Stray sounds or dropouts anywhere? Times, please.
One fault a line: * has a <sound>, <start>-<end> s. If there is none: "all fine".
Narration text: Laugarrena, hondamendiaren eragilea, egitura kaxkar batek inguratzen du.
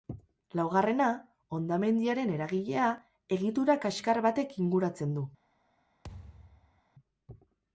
* has a thud, 6.0-6.8 s